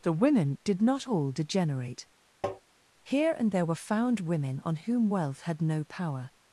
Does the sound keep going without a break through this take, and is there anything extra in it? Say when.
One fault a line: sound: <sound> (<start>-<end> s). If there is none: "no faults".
sound: tap (2.4-2.6 s)